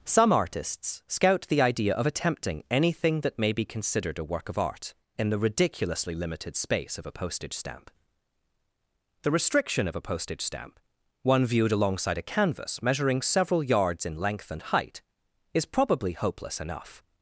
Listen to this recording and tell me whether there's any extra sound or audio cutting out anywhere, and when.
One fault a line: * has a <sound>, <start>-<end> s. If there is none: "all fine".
all fine